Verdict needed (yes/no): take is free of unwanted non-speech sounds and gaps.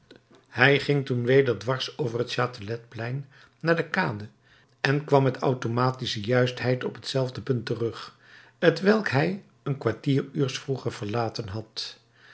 yes